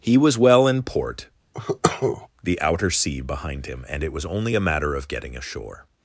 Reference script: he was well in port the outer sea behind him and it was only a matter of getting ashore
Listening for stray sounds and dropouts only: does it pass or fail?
fail